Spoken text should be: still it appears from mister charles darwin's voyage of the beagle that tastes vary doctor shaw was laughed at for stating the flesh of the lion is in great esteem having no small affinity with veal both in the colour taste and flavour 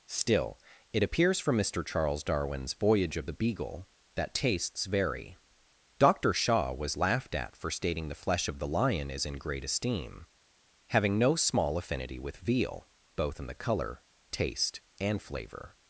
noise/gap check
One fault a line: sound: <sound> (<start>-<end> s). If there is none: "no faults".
no faults